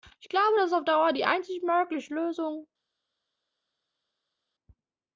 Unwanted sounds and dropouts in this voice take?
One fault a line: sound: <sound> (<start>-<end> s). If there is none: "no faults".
no faults